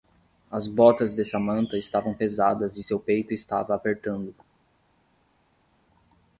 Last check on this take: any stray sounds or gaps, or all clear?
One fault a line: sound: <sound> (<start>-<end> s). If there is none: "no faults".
no faults